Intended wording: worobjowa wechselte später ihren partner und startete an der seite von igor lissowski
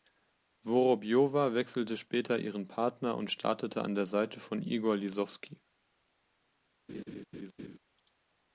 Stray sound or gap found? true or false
true